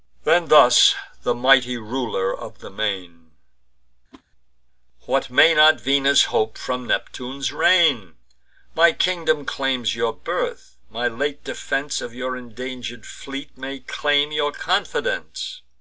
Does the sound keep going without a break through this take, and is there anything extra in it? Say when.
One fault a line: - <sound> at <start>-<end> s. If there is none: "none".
- whoosh at 4.1-4.2 s